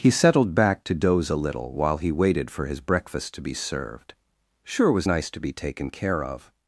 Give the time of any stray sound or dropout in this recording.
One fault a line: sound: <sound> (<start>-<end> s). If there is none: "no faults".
no faults